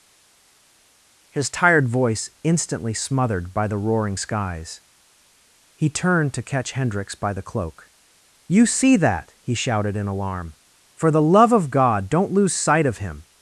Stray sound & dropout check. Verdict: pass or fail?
pass